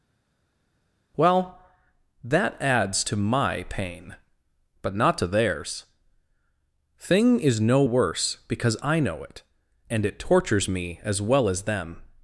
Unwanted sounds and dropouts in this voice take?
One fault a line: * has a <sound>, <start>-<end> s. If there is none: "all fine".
all fine